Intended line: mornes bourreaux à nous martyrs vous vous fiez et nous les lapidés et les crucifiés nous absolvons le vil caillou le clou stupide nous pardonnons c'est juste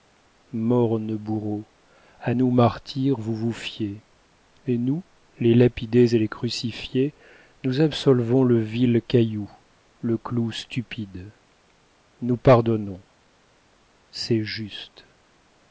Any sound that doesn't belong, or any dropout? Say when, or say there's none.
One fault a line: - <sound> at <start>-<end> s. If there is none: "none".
none